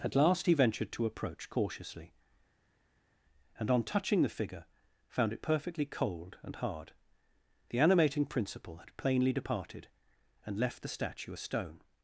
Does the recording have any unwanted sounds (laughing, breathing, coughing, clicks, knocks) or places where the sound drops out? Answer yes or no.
no